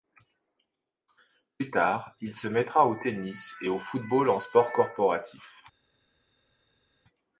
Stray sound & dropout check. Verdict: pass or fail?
pass